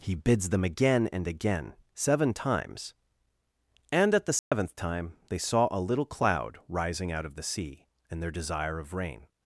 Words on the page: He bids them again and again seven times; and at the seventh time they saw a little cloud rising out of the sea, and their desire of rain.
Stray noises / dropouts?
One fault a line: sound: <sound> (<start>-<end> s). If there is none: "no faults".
sound: dropout (4.4-4.5 s)